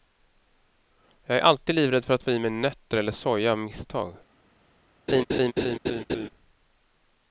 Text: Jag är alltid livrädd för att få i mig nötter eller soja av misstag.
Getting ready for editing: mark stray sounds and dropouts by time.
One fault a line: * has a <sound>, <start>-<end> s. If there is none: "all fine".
* has a laugh, 5.1-6.3 s